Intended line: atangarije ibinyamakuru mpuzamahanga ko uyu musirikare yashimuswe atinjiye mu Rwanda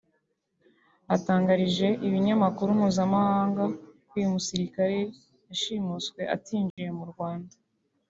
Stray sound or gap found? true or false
true